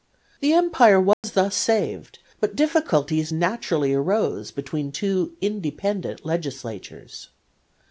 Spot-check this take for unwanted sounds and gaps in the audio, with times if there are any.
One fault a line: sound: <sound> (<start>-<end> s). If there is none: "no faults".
sound: dropout (1.1-1.2 s)